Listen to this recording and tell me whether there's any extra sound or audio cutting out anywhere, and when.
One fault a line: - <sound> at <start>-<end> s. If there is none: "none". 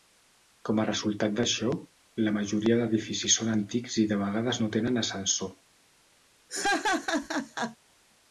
- laugh at 6.5-7.8 s